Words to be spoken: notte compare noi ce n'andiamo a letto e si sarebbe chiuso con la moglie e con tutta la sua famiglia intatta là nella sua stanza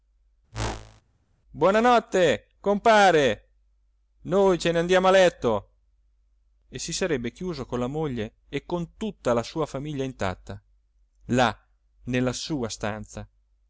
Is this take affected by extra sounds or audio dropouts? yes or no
yes